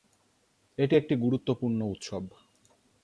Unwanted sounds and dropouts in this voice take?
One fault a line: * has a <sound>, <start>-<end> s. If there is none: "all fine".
all fine